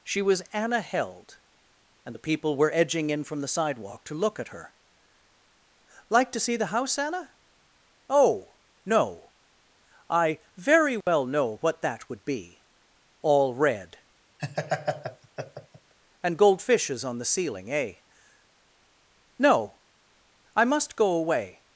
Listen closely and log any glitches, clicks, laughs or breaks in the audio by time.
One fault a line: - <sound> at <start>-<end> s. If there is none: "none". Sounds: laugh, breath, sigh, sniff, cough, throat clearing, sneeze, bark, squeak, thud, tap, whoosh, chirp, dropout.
- dropout at 11.0-11.1 s
- laugh at 14.4-15.9 s